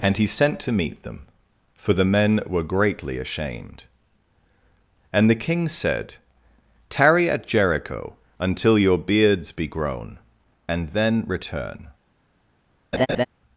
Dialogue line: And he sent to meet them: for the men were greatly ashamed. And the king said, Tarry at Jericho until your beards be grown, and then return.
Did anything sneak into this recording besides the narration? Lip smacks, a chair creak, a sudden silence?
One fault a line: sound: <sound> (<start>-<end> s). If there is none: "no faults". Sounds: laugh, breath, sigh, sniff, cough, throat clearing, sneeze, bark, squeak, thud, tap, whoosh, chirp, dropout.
sound: laugh (12.9-13.3 s)